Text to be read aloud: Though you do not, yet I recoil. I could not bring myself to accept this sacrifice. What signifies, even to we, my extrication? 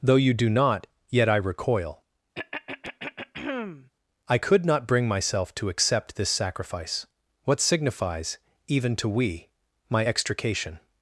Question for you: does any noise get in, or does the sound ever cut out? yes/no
yes